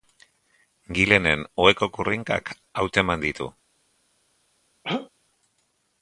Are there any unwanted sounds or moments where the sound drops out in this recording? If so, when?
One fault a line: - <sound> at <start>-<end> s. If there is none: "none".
- throat clearing at 4.8-5.1 s